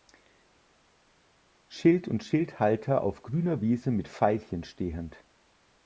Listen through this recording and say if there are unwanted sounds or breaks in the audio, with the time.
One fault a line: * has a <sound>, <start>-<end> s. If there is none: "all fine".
all fine